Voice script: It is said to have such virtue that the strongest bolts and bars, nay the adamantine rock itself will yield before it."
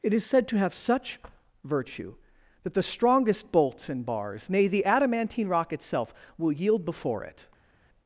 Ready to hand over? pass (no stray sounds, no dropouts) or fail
pass